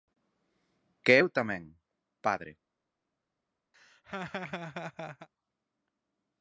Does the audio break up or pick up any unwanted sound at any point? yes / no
yes